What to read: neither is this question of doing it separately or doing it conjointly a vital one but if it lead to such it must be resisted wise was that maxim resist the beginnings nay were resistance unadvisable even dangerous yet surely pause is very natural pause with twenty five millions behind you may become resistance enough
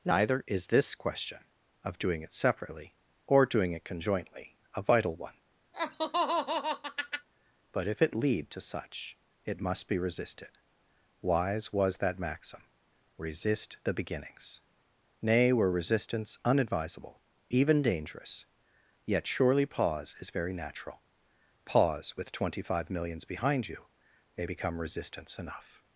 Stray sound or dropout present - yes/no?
yes